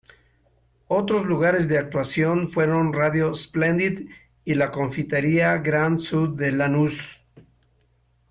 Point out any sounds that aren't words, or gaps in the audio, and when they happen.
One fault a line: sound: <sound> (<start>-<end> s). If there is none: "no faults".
no faults